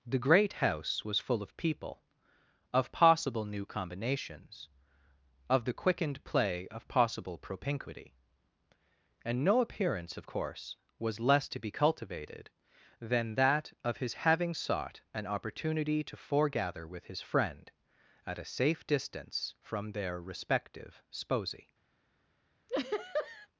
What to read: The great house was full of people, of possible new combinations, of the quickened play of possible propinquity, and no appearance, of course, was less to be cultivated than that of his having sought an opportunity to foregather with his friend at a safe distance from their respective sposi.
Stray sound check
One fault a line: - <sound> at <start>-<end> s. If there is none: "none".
- laugh at 22.7-23.5 s